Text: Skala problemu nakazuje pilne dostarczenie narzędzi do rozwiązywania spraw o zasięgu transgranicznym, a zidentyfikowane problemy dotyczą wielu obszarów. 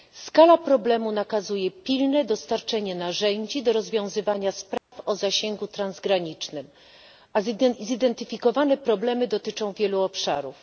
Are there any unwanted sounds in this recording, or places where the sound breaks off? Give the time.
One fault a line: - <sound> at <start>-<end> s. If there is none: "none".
- dropout at 4.8-4.9 s